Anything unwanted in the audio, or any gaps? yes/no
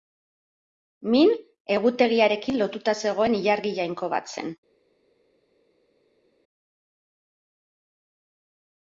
no